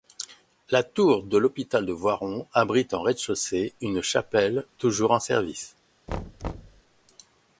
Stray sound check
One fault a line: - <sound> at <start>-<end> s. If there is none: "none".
- thud at 6.1-6.8 s